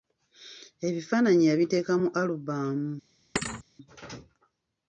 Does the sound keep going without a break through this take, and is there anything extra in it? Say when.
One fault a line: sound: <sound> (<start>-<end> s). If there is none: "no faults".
sound: thud (3.4-3.6 s)